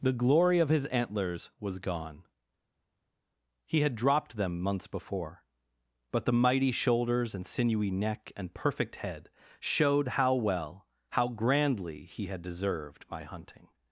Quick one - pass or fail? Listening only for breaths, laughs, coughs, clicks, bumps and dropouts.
pass